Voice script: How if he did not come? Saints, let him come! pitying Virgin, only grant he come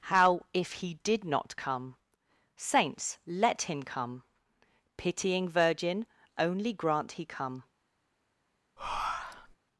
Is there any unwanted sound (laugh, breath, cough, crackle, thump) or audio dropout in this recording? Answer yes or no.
yes